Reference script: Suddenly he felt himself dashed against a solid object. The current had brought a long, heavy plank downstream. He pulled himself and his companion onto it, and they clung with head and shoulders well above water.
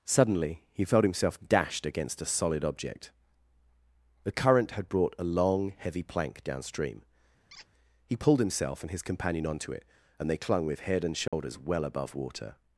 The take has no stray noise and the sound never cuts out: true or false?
false